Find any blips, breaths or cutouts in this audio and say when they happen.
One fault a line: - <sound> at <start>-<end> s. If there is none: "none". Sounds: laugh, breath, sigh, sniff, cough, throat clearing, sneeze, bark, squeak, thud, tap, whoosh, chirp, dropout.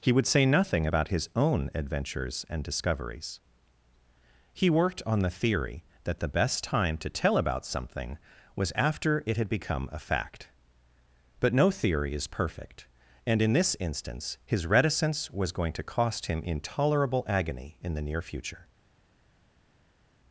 none